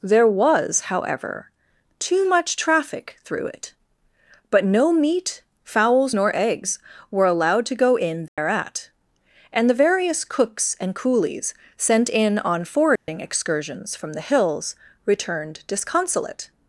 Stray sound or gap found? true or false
true